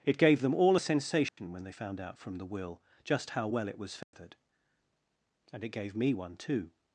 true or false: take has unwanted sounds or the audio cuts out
true